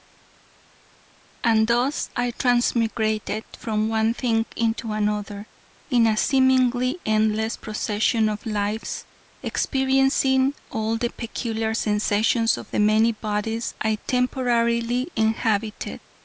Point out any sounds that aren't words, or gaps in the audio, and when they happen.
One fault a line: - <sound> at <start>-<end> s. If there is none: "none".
none